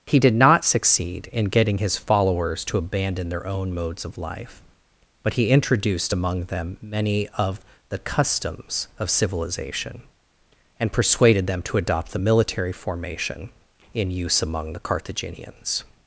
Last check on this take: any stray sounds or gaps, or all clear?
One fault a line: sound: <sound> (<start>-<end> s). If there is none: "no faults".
no faults